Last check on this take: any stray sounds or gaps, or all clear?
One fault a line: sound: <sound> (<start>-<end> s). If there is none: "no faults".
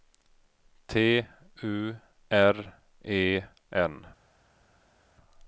no faults